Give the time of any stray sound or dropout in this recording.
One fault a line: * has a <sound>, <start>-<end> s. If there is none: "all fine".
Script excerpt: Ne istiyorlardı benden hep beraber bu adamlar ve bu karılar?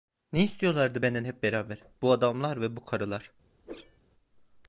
* has a whoosh, 3.6-4.0 s